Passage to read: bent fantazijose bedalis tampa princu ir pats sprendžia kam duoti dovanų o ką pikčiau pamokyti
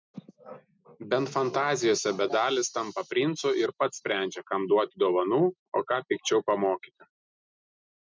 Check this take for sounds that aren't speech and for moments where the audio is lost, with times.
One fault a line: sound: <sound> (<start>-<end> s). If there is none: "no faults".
no faults